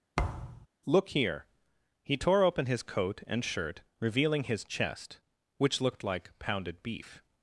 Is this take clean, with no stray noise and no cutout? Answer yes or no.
no